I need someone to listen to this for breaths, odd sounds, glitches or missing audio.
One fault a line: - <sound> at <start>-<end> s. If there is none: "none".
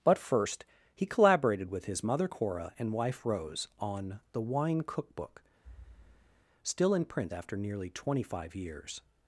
- thud at 5.6-6.5 s